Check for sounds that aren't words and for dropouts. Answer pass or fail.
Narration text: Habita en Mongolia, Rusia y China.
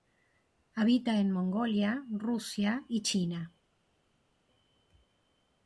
pass